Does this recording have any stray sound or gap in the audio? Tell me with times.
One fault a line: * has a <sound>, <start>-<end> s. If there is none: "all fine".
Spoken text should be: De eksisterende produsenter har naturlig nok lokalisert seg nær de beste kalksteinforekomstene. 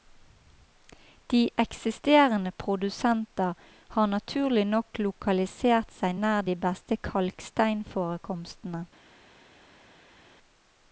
all fine